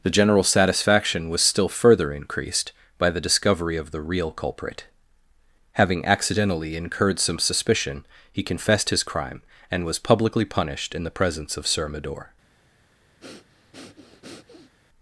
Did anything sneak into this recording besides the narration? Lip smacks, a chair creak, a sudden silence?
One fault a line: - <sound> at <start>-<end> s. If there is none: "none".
- breath at 13.2-14.7 s